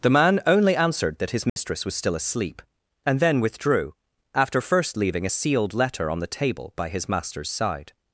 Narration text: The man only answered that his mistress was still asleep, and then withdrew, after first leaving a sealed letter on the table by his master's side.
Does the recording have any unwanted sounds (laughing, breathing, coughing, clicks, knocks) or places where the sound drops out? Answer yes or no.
yes